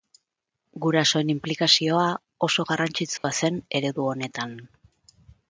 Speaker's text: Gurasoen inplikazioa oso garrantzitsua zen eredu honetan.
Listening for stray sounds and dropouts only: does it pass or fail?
fail